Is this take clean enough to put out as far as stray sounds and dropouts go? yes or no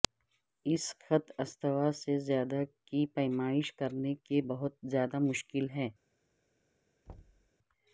no